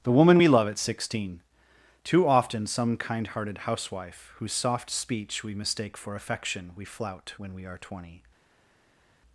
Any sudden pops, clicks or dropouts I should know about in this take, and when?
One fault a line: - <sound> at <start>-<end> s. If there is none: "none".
none